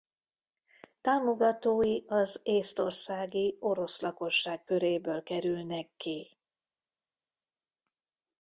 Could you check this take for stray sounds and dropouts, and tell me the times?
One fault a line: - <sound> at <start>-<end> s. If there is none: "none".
none